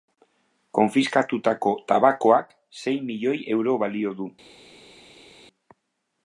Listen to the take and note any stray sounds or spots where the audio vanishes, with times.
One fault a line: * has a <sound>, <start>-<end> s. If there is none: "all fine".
all fine